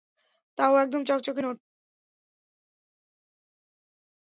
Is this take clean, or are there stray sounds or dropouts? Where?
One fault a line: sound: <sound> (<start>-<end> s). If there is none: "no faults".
no faults